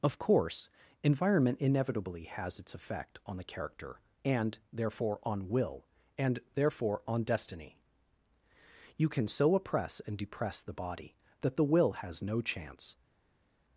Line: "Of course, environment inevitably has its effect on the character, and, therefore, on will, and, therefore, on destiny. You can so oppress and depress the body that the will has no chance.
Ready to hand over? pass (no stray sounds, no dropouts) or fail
pass